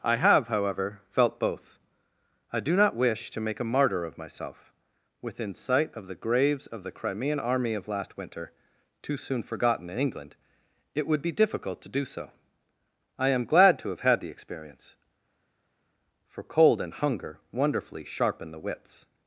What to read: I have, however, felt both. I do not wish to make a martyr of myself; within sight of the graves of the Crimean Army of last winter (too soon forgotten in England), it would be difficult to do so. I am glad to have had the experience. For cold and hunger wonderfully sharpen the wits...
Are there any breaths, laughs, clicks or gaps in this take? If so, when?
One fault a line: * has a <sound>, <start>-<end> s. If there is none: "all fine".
all fine